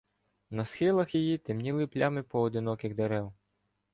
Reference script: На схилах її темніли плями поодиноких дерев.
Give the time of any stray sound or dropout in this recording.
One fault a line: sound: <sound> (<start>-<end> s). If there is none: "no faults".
no faults